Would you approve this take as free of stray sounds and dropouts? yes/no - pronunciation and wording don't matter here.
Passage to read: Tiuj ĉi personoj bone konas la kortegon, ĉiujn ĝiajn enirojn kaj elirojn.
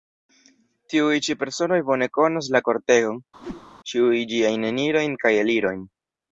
no